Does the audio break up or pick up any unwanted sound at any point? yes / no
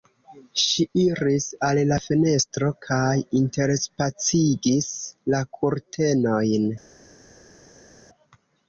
no